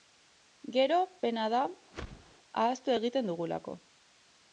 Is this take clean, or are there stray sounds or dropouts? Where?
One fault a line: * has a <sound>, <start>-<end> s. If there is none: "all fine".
* has a whoosh, 1.9-2.4 s